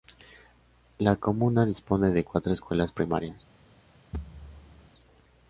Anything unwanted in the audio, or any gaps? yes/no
yes